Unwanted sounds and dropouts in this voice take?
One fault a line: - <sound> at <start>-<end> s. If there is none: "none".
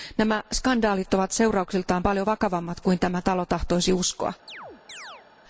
- chirp at 4.5-5.3 s